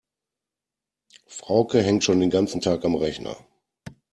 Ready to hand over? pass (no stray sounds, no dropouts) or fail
pass